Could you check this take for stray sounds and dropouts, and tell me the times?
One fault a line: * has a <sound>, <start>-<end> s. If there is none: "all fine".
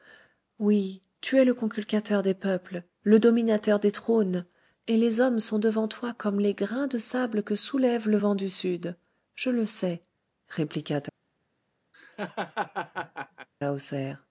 * has a laugh, 11.9-13.5 s